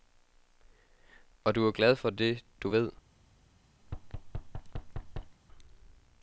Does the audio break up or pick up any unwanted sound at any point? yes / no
yes